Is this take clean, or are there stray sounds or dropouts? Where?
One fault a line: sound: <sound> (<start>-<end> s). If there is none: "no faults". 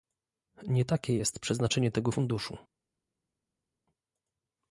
no faults